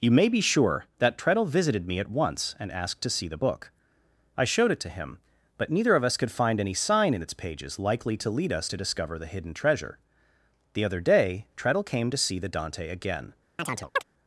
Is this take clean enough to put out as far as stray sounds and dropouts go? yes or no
no